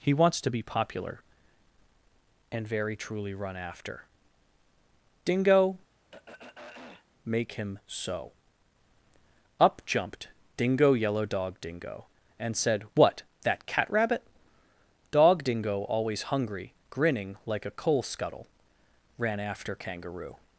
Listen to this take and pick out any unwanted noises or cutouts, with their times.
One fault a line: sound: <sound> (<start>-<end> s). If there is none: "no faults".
sound: throat clearing (5.9-7.1 s)